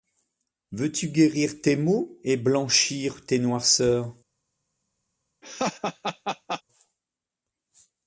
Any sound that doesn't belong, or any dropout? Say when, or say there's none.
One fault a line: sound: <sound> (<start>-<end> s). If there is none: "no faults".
sound: laugh (5.4-6.6 s)